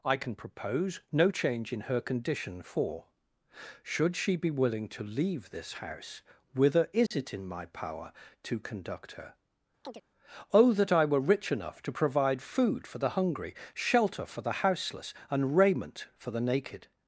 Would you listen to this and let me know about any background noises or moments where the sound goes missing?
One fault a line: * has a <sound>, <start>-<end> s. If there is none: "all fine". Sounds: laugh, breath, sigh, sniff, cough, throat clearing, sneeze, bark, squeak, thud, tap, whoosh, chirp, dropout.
* has a dropout, 7.1-7.1 s
* has a chirp, 9.8-10.0 s